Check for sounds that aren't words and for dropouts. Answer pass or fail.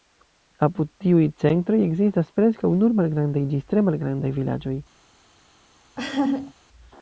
fail